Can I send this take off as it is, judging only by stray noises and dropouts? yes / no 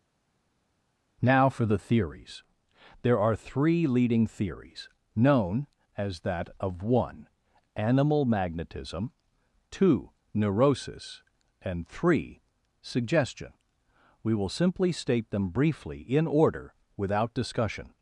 yes